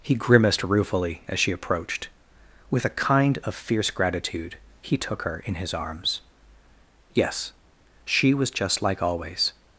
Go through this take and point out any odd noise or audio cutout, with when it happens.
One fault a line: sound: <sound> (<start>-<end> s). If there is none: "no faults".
no faults